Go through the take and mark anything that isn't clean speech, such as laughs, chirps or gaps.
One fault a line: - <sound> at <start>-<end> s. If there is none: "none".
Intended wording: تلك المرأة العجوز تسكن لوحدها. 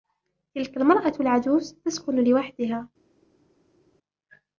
none